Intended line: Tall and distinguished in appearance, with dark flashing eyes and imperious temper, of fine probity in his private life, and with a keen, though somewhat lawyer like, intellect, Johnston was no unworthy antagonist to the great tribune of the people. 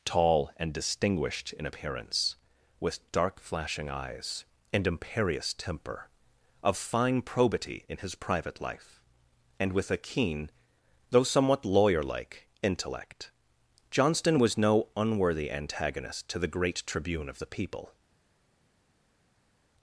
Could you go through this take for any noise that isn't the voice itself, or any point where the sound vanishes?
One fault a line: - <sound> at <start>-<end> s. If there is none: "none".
none